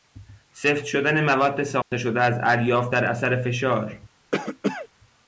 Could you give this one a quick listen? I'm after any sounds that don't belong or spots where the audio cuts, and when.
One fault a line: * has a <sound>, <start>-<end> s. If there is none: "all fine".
* has a dropout, 1.8-1.9 s
* has a cough, 4.3-4.9 s